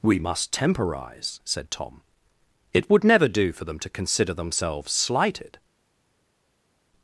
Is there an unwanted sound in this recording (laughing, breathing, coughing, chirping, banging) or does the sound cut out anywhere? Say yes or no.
no